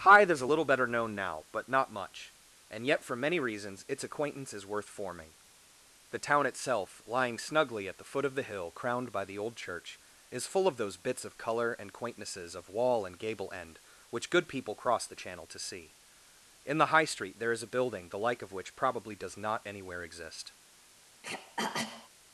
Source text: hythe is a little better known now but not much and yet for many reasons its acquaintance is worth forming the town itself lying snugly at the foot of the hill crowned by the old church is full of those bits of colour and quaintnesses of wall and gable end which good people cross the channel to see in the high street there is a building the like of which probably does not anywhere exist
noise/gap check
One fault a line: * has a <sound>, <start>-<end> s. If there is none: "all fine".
* has a throat clearing, 21.2-22.1 s